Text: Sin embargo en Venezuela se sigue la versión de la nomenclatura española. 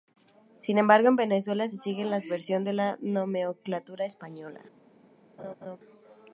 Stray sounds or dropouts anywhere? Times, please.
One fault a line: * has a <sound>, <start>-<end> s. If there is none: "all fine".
* has a laugh, 5.4-5.8 s